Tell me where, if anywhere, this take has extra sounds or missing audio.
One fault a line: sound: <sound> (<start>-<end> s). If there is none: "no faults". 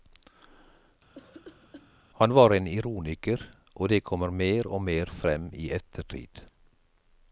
sound: cough (1.1-1.9 s)